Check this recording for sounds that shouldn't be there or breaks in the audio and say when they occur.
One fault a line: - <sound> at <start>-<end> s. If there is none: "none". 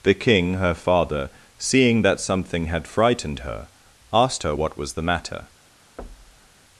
- thud at 6.0-6.6 s